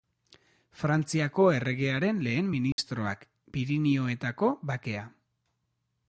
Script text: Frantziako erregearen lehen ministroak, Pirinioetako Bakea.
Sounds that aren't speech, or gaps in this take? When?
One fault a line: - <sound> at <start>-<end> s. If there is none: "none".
- dropout at 2.7-2.8 s